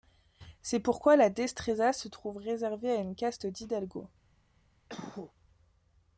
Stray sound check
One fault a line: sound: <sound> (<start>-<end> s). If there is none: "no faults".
sound: cough (4.9-5.3 s)